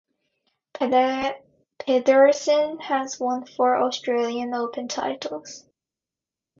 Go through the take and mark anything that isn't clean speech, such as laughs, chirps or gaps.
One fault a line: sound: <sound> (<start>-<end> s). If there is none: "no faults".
no faults